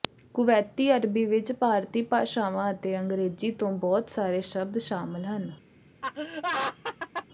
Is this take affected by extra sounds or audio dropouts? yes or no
yes